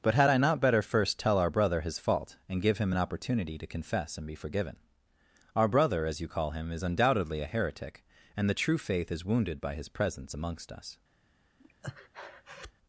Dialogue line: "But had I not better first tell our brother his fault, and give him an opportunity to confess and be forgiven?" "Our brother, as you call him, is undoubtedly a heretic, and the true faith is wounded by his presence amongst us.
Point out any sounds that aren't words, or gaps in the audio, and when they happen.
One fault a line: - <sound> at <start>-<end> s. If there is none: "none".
- breath at 11.6-12.7 s